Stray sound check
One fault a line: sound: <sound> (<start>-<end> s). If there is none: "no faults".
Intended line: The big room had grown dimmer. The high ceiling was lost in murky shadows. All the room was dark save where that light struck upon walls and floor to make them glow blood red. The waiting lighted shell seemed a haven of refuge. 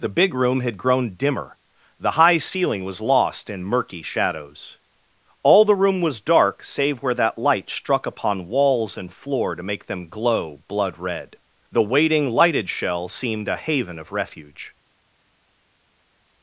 no faults